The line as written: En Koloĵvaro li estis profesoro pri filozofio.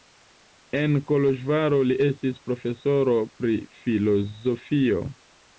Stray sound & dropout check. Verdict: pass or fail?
pass